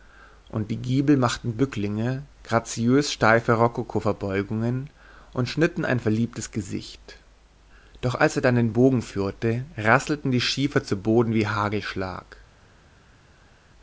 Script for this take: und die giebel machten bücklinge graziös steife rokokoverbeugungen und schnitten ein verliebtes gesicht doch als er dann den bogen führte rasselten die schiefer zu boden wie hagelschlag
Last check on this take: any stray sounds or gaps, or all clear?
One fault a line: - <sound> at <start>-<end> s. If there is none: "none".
none